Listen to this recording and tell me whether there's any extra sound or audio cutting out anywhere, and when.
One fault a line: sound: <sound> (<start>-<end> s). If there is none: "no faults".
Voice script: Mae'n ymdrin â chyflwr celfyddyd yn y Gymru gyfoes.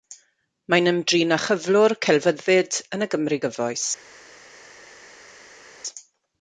no faults